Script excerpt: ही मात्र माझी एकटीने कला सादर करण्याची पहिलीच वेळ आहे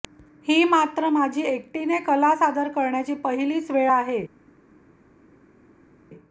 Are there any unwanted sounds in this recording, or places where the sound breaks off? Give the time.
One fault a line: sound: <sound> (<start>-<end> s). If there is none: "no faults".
no faults